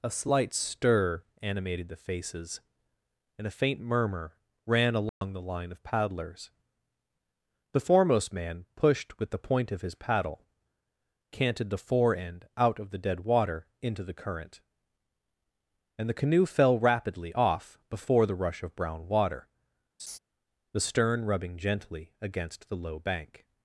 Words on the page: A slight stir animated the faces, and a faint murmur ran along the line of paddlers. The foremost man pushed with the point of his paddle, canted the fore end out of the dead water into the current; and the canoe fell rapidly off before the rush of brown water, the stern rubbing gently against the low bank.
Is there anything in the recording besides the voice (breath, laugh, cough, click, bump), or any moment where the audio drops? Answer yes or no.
yes